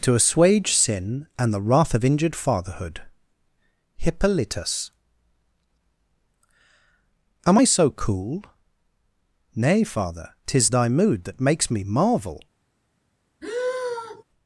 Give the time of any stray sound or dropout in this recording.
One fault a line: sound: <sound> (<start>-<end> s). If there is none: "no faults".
sound: sigh (13.4-14.2 s)